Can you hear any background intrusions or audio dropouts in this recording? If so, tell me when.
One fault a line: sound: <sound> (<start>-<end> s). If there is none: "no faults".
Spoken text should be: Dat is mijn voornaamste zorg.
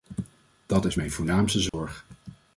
sound: dropout (1.7-1.7 s)